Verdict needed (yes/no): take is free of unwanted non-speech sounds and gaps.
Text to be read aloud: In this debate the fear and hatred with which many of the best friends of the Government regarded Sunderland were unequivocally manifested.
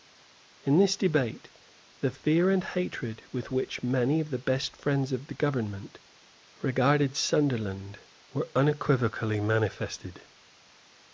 yes